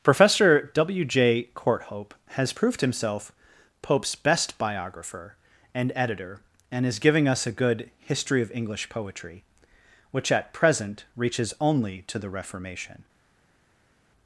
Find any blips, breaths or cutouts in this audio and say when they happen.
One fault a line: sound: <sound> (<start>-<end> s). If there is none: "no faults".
no faults